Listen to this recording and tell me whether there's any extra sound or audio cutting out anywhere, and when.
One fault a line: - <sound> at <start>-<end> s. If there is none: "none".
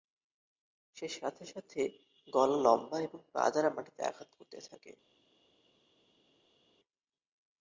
none